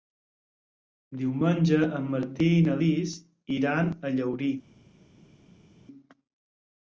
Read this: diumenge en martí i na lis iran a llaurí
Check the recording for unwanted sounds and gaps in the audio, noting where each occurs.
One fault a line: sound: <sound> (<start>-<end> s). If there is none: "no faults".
no faults